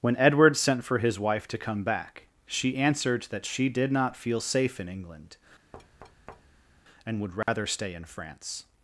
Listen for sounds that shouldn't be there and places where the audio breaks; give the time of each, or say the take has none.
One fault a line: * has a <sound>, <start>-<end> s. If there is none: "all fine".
* has a thud, 5.7-6.8 s
* has a dropout, 7.4-7.5 s